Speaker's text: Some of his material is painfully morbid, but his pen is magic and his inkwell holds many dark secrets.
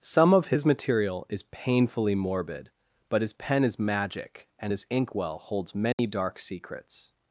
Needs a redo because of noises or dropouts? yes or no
yes